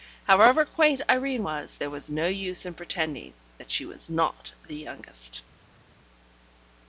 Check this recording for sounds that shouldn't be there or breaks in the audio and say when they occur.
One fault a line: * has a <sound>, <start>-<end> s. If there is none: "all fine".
all fine